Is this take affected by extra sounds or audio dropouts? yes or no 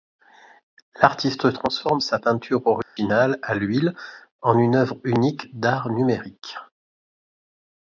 yes